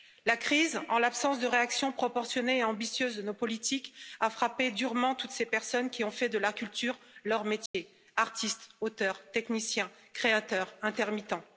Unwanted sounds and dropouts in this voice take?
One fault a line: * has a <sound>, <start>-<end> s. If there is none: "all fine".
* has a dropout, 7.7-7.7 s